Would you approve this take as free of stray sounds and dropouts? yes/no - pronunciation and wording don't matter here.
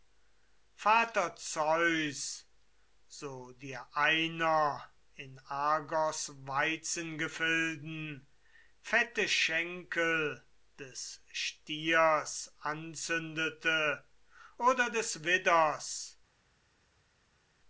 yes